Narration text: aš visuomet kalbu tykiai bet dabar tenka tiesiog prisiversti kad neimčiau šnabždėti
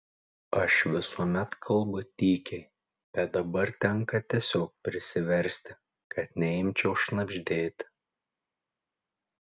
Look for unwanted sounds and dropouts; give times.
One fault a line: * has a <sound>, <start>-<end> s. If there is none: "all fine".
all fine